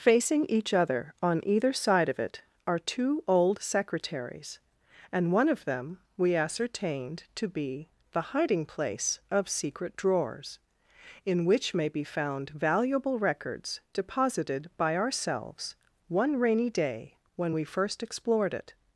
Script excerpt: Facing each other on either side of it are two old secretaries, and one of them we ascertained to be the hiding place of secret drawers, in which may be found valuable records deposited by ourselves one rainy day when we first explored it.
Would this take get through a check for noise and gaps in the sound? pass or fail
pass